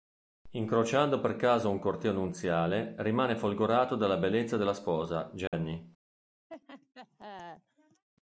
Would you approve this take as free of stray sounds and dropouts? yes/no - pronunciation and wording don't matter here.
no